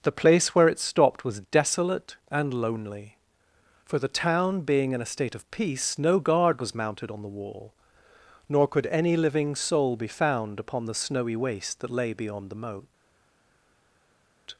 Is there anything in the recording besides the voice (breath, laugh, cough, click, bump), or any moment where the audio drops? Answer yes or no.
no